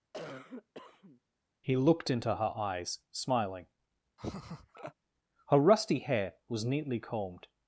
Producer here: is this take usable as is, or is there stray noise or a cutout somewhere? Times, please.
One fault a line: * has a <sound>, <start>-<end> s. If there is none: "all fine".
* has a cough, 0.1-1.2 s
* has a laugh, 4.2-4.9 s